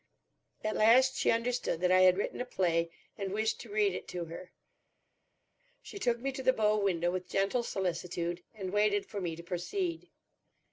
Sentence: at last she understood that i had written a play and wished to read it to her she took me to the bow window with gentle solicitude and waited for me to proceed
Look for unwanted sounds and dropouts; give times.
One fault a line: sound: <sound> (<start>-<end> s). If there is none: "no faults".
no faults